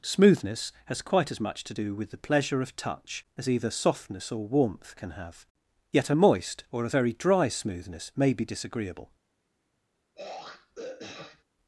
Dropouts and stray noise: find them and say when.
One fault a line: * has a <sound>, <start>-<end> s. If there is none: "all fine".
* has a throat clearing, 10.2-11.4 s